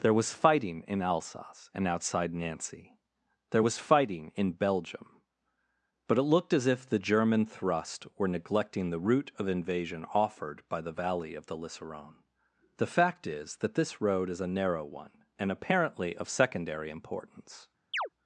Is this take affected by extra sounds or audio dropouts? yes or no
yes